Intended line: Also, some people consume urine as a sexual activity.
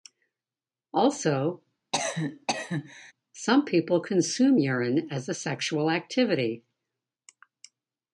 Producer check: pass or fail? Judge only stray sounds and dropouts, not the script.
fail